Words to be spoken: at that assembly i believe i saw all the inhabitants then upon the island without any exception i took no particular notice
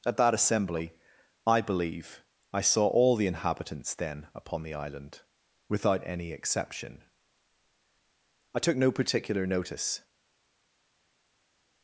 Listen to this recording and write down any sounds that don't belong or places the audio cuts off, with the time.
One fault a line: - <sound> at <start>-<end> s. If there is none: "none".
none